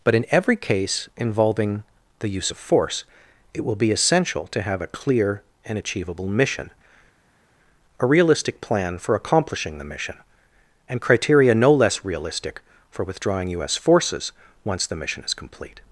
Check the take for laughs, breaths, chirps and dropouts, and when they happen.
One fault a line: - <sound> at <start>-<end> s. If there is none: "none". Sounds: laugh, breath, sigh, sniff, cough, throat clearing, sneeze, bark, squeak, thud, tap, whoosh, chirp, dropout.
none